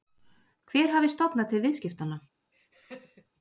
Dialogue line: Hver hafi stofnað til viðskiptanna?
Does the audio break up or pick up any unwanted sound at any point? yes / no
yes